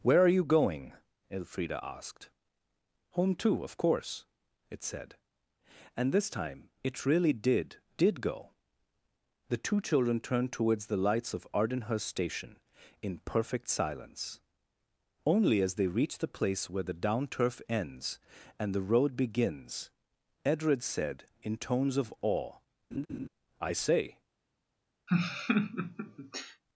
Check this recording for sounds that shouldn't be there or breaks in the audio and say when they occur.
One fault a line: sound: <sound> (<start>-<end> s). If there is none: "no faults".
sound: laugh (22.9-23.3 s)
sound: laugh (25.1-26.6 s)